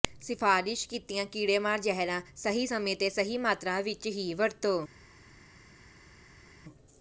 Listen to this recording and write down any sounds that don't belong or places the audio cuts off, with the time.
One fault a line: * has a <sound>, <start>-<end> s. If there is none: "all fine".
all fine